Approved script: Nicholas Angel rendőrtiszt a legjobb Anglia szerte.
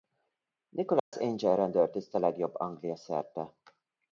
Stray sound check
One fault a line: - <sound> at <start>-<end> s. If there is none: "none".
- dropout at 1.0-1.1 s